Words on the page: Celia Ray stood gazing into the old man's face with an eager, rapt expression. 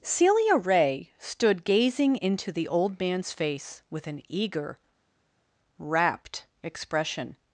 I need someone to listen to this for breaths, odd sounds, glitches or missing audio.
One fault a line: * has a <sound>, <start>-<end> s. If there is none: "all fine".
all fine